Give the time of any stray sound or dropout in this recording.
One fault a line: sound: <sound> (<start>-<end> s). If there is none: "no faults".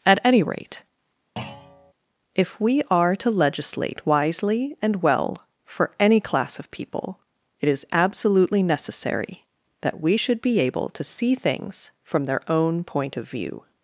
sound: thud (1.4-1.9 s)